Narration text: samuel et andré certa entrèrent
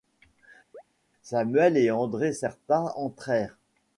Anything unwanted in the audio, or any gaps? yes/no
yes